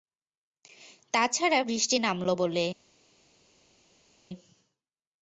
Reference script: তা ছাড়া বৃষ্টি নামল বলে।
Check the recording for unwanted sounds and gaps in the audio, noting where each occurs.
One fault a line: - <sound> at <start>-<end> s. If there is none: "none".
none